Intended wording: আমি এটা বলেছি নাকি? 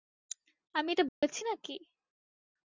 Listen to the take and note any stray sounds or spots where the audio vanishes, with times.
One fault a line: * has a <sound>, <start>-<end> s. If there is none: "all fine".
* has a dropout, 1.1-1.2 s